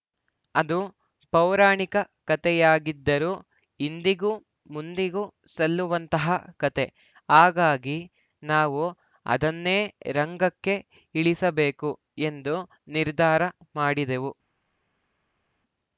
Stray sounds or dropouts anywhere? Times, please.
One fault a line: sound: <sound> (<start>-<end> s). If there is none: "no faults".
no faults